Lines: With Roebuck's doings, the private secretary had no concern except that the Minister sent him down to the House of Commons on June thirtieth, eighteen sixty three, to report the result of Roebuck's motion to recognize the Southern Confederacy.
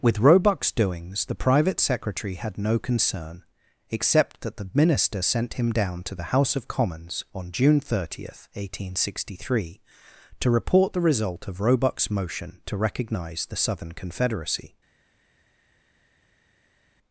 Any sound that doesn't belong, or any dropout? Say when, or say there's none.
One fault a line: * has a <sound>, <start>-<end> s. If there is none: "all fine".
all fine